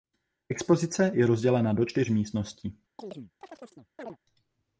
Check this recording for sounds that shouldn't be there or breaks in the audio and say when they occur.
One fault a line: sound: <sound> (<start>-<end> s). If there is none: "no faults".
sound: chirp (3.0-4.2 s)